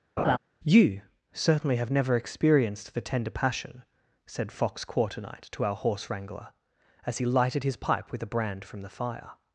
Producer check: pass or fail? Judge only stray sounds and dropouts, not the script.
fail